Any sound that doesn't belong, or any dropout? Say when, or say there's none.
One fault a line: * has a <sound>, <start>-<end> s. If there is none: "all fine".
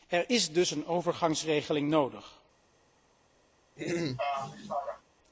* has a throat clearing, 3.8-5.0 s